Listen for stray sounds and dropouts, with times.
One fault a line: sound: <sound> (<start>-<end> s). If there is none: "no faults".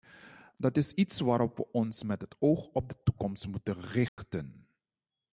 sound: dropout (4.1-4.2 s)